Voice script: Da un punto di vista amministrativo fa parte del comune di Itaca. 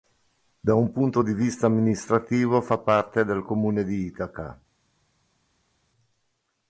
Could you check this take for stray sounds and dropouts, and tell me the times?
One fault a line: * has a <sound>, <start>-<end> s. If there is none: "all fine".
all fine